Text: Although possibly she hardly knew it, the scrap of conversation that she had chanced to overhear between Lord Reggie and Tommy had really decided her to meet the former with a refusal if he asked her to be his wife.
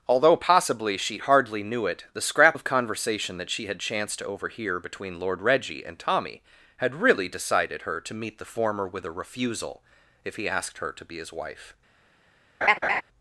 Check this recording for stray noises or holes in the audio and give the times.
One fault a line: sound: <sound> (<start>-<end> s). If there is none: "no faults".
sound: laugh (12.6-13.0 s)